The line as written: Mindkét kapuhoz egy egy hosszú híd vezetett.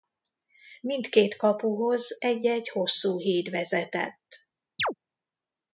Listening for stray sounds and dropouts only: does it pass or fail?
fail